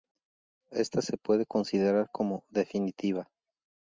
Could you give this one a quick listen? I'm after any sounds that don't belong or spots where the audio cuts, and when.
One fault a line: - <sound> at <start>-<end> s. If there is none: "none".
none